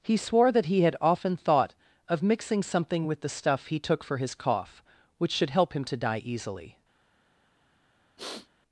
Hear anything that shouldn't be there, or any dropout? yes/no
yes